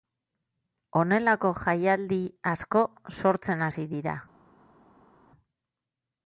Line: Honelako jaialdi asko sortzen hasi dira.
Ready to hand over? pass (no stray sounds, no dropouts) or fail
pass